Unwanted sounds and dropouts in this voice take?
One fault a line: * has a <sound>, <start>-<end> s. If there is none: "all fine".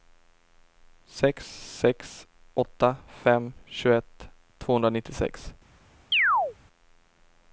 * has a chirp, 6.1-6.6 s